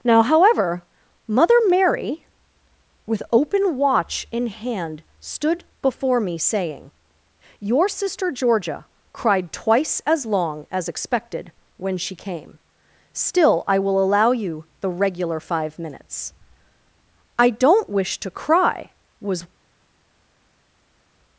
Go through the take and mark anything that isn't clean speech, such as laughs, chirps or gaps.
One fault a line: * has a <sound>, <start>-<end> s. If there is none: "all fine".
all fine